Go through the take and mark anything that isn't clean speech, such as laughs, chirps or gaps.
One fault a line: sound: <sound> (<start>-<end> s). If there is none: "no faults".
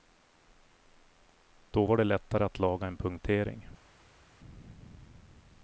no faults